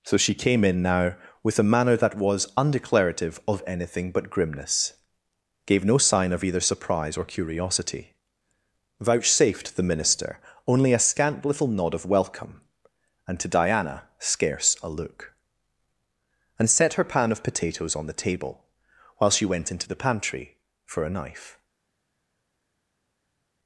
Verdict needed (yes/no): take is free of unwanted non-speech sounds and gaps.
yes